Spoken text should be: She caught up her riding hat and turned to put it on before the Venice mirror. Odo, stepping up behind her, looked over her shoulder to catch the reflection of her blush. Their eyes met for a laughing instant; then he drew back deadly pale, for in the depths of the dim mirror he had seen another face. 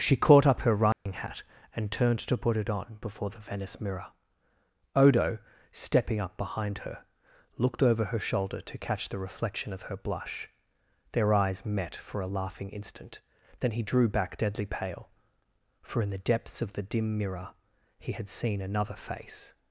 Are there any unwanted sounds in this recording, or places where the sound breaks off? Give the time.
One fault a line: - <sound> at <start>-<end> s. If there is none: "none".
- dropout at 0.9-1.1 s